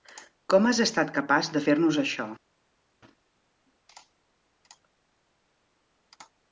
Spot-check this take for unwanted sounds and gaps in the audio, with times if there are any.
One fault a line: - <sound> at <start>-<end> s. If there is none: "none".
none